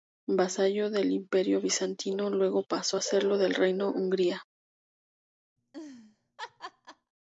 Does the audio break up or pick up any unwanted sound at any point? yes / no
yes